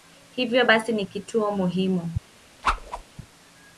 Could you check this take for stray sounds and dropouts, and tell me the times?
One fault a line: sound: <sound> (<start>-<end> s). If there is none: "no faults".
sound: whoosh (2.6-3.0 s)